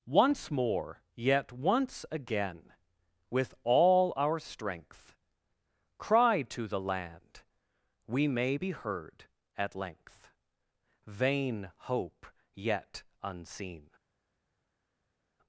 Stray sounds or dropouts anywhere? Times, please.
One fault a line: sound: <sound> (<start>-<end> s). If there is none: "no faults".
no faults